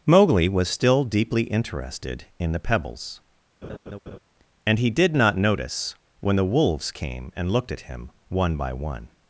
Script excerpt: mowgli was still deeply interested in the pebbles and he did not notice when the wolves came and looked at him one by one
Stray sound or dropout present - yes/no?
yes